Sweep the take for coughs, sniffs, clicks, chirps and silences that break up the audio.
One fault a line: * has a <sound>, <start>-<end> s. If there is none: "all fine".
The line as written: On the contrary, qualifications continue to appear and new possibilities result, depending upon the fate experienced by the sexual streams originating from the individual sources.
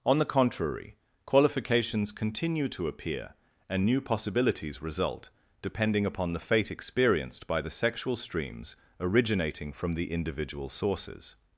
all fine